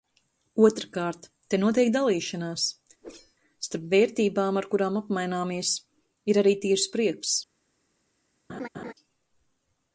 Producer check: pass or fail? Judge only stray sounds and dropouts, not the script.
fail